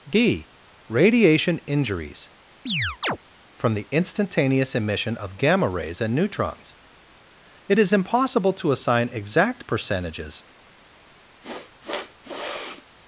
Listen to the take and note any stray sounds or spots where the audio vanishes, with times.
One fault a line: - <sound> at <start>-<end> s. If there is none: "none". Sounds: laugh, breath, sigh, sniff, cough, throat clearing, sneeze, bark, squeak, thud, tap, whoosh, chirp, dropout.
- chirp at 2.7-3.2 s
- sniff at 11.4-12.9 s